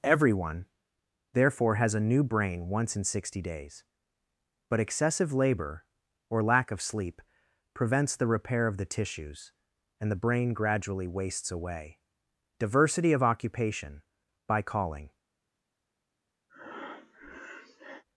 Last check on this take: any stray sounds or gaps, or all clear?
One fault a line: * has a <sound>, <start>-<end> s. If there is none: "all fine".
* has a breath, 16.5-18.0 s